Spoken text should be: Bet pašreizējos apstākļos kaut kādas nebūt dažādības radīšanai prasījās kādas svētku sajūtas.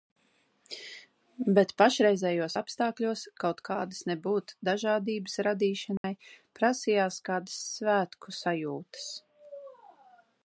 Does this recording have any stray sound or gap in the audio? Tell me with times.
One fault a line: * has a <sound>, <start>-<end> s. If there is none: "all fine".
* has a dropout, 6.0-6.0 s